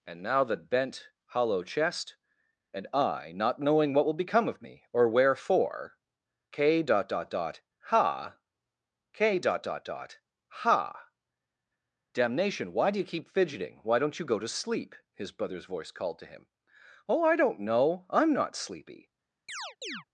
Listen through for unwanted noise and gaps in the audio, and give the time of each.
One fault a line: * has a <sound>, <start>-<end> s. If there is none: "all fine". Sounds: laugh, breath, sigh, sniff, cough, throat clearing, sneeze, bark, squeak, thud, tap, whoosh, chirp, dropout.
* has a chirp, 19.5-20.0 s